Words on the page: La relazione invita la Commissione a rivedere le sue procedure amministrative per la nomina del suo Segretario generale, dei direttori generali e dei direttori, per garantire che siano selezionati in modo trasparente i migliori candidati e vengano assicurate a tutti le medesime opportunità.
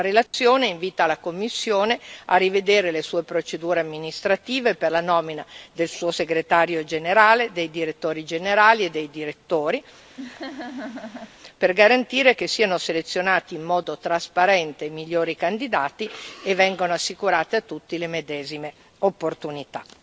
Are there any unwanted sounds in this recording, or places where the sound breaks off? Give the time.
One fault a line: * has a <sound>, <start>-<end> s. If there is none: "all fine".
* has a dropout, 0.3-0.3 s
* has a laugh, 10.2-11.4 s